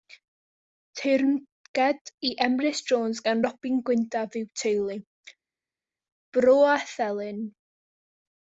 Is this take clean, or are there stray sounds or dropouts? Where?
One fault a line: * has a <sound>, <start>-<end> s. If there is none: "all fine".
all fine